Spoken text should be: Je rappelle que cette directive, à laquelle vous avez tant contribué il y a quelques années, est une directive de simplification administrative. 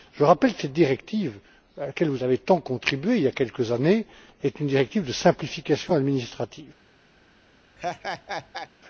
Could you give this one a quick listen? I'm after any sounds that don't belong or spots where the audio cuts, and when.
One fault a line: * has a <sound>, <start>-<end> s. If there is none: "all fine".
* has a laugh, 7.8-8.7 s